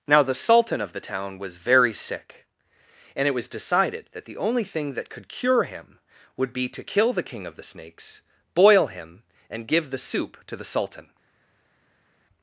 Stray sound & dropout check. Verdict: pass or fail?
pass